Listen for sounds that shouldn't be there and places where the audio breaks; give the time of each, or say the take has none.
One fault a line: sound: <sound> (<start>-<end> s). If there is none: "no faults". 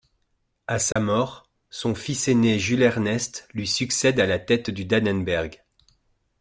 sound: dropout (0.9-1.0 s)